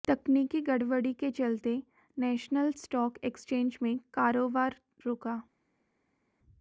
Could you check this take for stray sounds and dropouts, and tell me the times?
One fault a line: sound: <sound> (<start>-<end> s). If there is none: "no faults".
no faults